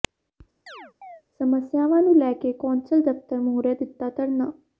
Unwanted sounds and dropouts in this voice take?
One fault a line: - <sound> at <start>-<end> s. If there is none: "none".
- chirp at 0.7-1.2 s